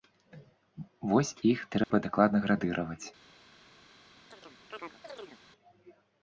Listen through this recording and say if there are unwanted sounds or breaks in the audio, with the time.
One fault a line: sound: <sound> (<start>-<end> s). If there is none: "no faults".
sound: dropout (1.8-1.9 s)
sound: chirp (4.3-5.4 s)